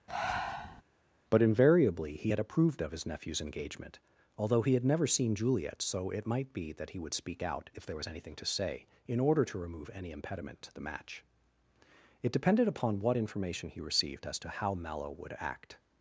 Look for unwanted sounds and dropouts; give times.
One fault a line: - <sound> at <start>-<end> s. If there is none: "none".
- breath at 0.1-0.8 s